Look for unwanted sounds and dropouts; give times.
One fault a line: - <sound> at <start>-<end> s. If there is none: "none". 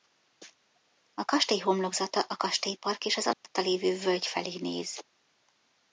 - dropout at 3.3-3.4 s